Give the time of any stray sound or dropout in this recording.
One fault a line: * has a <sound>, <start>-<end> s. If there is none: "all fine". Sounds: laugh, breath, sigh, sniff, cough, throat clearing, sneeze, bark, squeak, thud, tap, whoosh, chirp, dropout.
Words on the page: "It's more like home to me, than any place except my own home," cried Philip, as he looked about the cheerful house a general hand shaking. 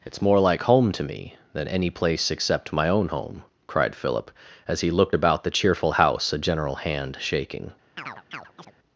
* has a chirp, 8.0-8.7 s